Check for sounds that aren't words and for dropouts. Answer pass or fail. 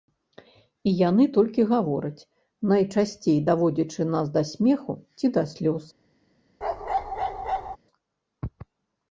fail